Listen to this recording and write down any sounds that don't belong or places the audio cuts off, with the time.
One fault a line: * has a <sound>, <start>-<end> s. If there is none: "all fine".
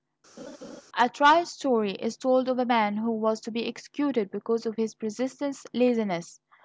* has a laugh, 0.4-0.8 s